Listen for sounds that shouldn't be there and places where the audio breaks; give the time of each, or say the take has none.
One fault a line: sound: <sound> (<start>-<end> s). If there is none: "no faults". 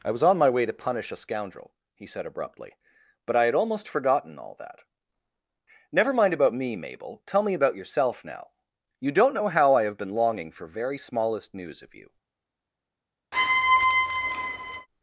sound: squeak (13.3-14.9 s)